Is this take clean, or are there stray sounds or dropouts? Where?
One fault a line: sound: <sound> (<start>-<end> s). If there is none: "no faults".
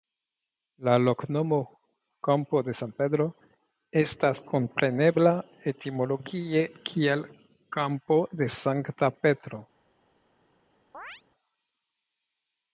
sound: chirp (10.9-11.2 s)